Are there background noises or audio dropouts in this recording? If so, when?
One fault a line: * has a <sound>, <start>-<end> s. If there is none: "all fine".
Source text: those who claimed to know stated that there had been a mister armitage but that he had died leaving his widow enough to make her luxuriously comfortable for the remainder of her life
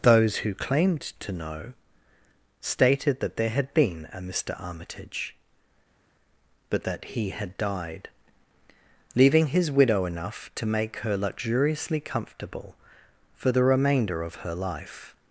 all fine